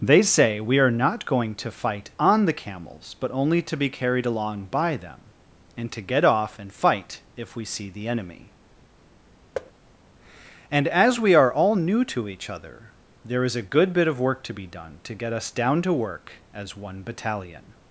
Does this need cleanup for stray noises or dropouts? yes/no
yes